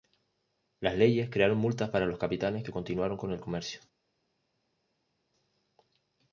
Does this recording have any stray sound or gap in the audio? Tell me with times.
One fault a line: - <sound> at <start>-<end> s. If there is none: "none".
none